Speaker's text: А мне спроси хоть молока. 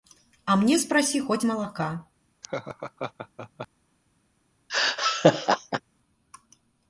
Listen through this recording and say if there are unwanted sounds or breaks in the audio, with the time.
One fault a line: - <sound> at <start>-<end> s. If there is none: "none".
- laugh at 2.4-3.7 s
- laugh at 4.7-5.8 s